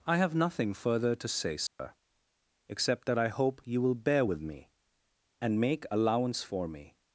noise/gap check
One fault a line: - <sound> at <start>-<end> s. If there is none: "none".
- dropout at 1.7-1.8 s